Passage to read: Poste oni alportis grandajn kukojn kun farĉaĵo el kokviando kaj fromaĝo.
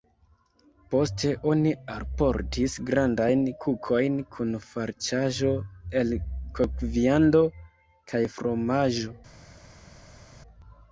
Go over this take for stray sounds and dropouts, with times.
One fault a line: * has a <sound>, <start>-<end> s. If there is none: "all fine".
all fine